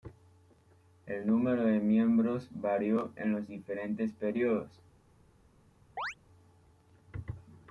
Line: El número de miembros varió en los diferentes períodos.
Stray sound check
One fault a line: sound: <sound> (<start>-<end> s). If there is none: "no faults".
sound: chirp (6.0-6.1 s)